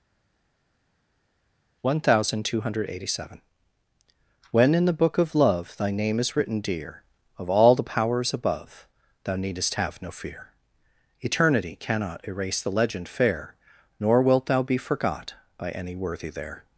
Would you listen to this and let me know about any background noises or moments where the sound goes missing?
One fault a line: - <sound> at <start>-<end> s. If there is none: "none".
none